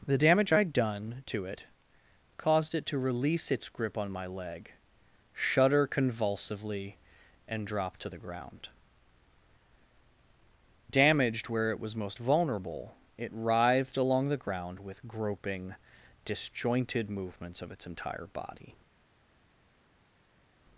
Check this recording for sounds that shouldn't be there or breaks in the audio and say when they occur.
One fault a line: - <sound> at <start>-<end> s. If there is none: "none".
none